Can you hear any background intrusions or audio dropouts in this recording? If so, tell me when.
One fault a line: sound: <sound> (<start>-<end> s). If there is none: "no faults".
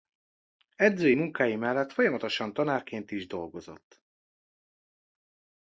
no faults